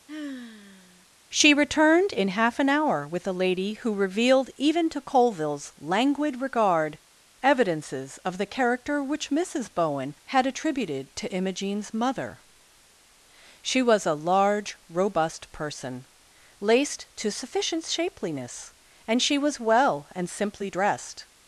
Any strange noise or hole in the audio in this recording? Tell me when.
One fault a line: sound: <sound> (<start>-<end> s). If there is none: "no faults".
sound: sigh (0.1-1.1 s)